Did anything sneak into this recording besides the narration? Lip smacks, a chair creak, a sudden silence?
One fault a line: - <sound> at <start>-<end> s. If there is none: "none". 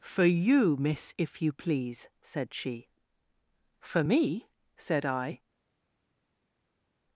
none